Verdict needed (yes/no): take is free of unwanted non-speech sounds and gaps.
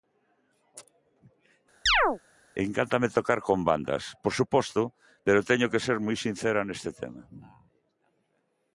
no